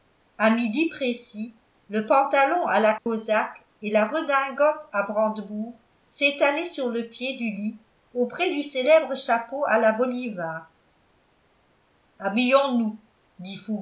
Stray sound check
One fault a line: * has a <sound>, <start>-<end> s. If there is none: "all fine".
* has a dropout, 3.0-3.1 s